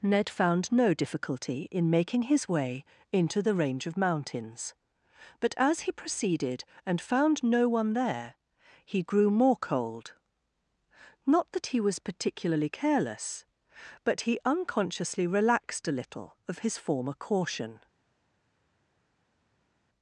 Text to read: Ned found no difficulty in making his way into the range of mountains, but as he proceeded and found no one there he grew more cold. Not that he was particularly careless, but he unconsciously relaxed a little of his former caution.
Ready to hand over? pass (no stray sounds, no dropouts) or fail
pass